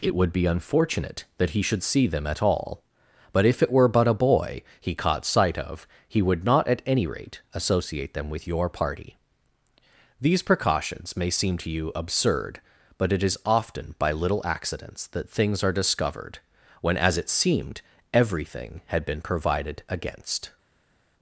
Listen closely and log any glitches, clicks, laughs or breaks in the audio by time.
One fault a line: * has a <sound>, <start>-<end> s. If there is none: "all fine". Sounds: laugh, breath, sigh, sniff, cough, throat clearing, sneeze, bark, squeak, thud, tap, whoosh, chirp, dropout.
all fine